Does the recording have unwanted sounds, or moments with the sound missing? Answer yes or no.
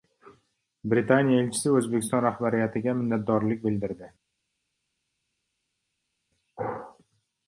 no